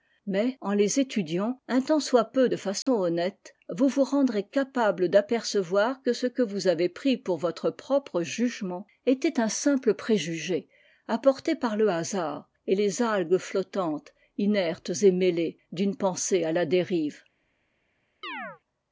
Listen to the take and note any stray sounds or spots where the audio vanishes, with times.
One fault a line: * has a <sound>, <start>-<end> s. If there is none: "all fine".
* has a dropout, 2.8-2.9 s
* has a chirp, 18.2-18.6 s